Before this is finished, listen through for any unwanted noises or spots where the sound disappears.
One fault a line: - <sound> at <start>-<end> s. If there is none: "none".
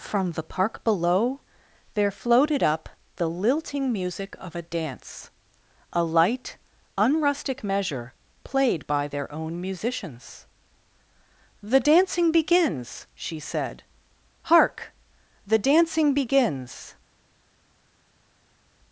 none